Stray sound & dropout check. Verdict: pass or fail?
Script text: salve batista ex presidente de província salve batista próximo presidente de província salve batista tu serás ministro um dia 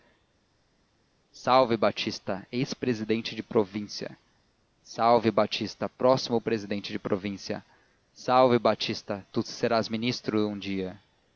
pass